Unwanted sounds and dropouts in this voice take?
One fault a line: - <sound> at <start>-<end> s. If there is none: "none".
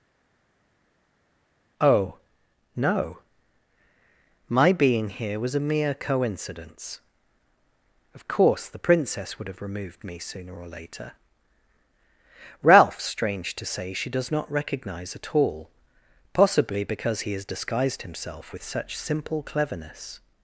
none